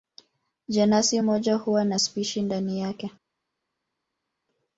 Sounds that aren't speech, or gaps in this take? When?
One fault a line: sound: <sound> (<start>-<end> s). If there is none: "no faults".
no faults